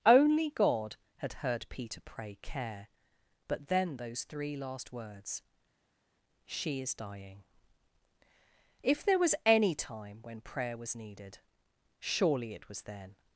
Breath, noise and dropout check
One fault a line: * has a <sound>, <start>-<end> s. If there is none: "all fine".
all fine